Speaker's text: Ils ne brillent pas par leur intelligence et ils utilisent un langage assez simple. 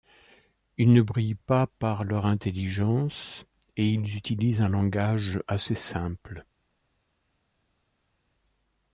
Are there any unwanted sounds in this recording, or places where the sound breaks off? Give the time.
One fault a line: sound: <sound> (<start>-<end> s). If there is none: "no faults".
no faults